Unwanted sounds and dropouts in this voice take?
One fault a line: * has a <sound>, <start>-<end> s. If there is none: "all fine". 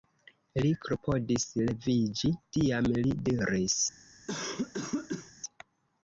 * has a cough, 4.3-5.3 s